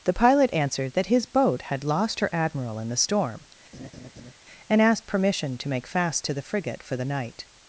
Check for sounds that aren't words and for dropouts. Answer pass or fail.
fail